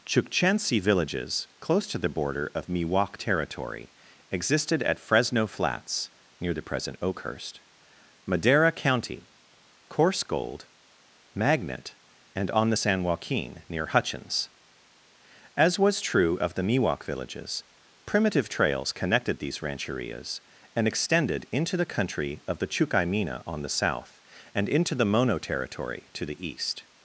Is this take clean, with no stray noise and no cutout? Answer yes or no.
yes